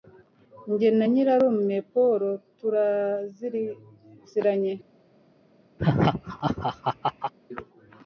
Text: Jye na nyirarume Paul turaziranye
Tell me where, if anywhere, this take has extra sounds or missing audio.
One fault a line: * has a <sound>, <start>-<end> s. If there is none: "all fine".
* has a laugh, 5.8-7.3 s